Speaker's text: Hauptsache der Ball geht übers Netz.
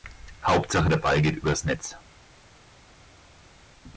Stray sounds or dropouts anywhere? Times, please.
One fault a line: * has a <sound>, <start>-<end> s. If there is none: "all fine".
all fine